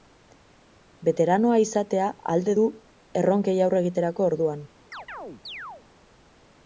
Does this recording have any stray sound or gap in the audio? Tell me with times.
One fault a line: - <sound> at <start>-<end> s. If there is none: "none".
- chirp at 4.9-5.8 s